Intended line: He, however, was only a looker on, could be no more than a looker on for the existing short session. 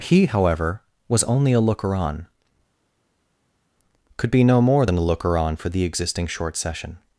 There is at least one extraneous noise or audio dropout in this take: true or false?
false